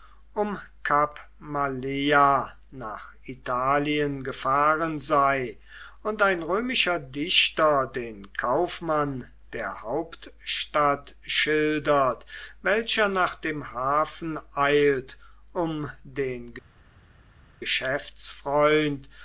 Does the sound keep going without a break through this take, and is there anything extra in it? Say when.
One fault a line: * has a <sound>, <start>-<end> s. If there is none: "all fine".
all fine